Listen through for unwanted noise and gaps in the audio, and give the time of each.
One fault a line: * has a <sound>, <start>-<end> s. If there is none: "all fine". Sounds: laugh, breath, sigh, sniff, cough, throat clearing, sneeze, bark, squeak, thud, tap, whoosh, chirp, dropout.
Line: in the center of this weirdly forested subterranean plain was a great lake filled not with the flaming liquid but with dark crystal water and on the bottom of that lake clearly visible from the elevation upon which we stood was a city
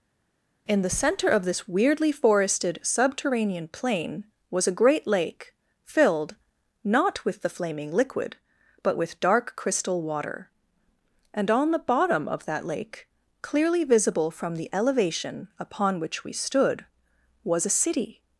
all fine